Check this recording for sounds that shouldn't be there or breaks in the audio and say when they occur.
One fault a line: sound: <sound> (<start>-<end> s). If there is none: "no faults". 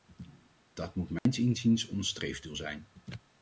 sound: dropout (1.2-1.3 s)